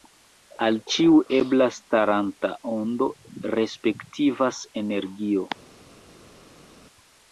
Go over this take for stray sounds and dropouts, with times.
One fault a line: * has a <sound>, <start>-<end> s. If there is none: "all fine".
all fine